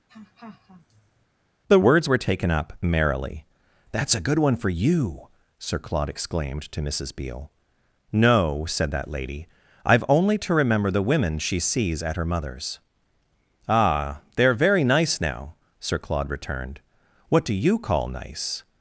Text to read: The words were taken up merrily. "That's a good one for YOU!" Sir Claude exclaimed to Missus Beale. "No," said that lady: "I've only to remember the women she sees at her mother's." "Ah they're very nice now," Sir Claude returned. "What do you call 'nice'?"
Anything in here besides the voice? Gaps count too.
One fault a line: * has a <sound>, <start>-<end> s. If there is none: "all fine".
* has a laugh, 0.1-1.3 s